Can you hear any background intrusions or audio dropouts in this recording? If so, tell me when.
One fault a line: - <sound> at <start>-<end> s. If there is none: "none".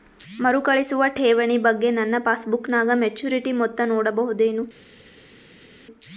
none